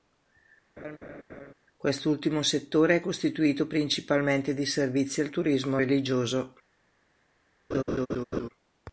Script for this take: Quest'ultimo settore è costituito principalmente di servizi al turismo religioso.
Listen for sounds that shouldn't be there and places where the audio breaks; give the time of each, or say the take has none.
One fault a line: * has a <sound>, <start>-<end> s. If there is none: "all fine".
* has a laugh, 0.8-1.5 s
* has a laugh, 7.7-8.5 s